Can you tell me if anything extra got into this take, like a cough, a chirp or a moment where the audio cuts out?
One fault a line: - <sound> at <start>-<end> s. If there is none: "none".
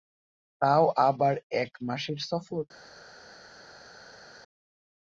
none